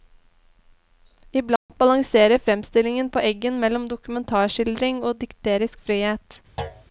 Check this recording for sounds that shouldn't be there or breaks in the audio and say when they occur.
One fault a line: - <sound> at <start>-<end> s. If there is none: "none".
- dropout at 1.6-1.7 s
- thud at 6.6-6.8 s